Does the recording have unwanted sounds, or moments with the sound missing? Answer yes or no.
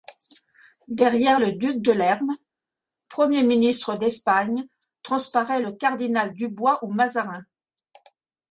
no